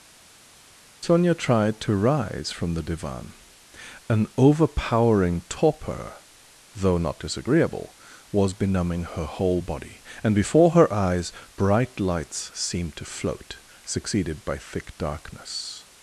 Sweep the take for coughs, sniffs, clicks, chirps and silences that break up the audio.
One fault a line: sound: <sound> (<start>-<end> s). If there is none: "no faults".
no faults